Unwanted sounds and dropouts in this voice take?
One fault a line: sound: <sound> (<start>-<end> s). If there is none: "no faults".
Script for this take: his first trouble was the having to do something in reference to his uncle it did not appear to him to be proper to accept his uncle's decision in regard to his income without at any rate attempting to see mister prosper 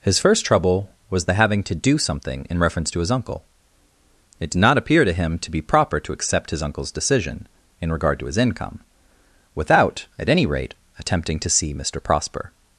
no faults